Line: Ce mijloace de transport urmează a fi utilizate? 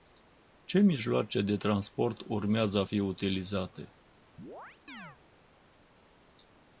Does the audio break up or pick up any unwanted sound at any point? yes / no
yes